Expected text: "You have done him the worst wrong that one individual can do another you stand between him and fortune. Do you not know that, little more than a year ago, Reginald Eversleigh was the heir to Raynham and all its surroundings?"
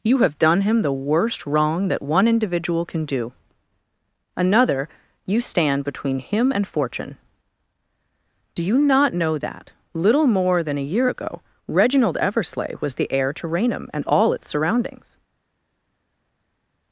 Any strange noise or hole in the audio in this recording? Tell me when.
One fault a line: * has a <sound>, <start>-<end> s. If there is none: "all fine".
all fine